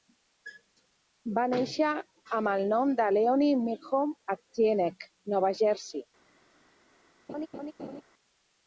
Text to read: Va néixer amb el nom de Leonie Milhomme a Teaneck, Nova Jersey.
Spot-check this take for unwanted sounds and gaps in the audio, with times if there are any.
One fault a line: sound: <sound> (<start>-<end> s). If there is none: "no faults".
sound: laugh (7.3-8.0 s)